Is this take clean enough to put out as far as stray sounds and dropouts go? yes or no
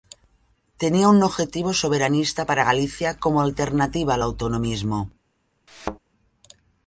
no